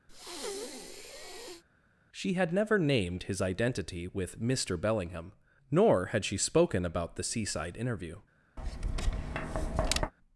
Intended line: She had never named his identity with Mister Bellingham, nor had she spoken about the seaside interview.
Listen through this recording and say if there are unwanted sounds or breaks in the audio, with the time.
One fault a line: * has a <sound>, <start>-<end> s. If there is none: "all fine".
* has a breath, 0.1-1.6 s
* has a tap, 8.6-10.1 s